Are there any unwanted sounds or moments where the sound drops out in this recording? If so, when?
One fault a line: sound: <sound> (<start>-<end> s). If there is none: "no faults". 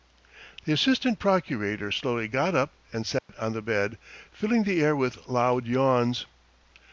sound: dropout (3.2-3.3 s)